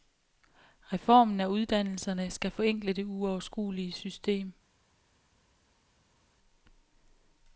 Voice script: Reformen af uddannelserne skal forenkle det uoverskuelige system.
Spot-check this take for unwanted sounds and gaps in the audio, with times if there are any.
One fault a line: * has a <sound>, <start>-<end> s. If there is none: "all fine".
all fine